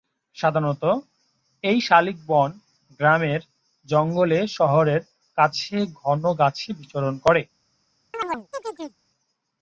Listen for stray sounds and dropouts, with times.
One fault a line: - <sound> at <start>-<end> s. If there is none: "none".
- chirp at 8.1-9.0 s